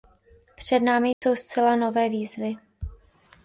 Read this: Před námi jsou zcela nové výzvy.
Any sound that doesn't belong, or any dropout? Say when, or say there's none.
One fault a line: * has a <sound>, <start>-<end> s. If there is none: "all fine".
* has a dropout, 1.1-1.2 s